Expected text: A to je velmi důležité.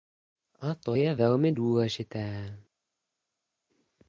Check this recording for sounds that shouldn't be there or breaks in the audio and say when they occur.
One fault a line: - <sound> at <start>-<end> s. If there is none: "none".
none